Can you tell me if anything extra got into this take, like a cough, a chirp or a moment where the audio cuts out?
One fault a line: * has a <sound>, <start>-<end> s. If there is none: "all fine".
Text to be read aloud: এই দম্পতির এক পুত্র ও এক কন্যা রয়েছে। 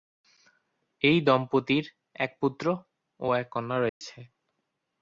* has a dropout, 3.9-4.0 s